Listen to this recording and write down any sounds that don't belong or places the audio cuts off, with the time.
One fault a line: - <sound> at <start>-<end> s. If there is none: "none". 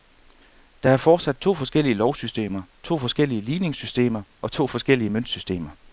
none